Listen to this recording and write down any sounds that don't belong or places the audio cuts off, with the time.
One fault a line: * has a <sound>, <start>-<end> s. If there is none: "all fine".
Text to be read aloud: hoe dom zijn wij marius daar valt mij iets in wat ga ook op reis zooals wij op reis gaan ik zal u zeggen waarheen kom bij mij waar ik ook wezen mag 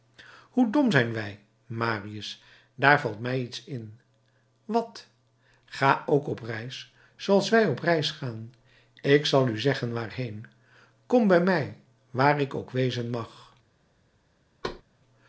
* has a thud, 14.6-14.8 s